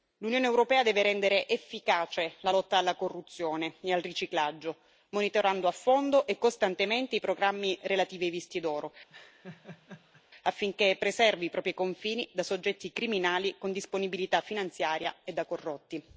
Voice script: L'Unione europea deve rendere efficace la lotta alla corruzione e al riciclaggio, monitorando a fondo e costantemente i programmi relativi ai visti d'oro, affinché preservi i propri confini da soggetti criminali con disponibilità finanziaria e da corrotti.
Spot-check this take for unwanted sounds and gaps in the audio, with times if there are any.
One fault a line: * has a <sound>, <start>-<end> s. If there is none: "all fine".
* has a laugh, 9.1-10.2 s